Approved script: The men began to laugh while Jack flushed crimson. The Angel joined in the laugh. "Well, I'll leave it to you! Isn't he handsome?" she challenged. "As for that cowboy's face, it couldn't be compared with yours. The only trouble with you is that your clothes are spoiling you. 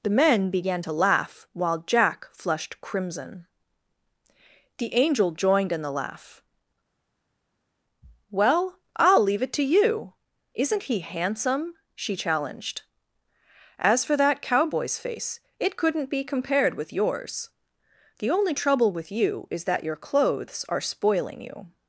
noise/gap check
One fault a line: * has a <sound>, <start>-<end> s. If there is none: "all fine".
all fine